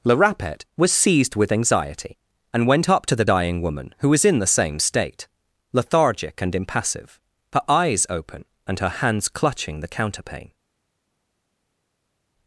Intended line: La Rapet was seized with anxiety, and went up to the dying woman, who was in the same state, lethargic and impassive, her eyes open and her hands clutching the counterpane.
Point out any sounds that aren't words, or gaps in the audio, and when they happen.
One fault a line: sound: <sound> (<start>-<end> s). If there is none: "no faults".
no faults